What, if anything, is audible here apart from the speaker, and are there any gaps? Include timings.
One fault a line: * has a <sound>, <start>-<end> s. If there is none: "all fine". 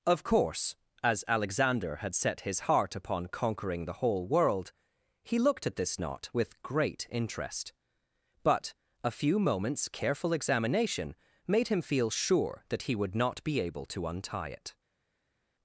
all fine